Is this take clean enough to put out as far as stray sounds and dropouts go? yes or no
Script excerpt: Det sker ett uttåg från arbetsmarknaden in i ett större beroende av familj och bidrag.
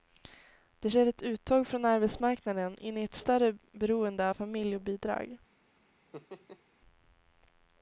no